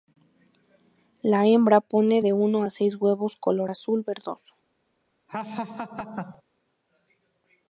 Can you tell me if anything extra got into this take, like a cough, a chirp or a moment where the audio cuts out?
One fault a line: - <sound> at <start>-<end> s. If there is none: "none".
- laugh at 5.3-6.4 s